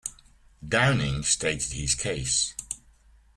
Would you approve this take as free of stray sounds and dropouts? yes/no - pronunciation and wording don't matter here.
yes